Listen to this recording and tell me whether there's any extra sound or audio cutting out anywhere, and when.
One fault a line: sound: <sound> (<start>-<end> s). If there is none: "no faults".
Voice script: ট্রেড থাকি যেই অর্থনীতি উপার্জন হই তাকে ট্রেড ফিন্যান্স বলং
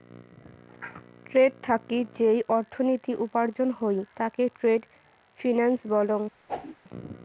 sound: whoosh (6.5-6.8 s)